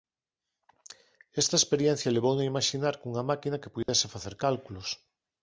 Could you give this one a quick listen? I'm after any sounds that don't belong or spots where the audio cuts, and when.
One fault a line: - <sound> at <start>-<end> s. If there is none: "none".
- dropout at 3.8-3.9 s